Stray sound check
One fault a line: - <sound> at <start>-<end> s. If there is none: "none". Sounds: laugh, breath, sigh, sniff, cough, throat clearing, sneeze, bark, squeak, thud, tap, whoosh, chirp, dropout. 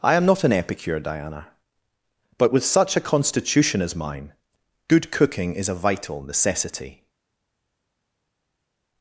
none